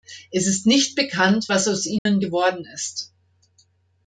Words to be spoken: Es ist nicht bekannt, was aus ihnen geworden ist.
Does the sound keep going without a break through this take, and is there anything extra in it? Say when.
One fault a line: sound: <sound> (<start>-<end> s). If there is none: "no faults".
sound: dropout (2.0-2.1 s)